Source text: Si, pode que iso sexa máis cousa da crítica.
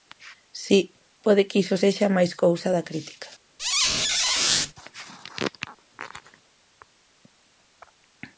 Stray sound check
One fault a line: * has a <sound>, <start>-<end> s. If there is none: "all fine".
* has a squeak, 3.6-4.7 s